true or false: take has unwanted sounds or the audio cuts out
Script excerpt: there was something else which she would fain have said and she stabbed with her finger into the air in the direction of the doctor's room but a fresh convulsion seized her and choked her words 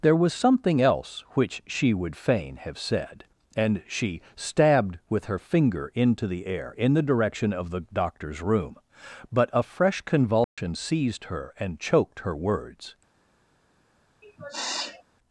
true